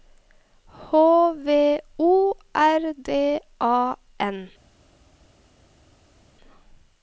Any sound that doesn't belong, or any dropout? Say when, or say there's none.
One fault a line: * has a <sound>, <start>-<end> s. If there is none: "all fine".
all fine